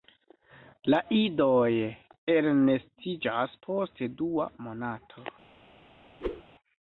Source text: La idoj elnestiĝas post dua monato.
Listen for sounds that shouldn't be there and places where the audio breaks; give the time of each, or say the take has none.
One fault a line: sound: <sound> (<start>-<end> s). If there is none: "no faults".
sound: whoosh (6.2-6.4 s)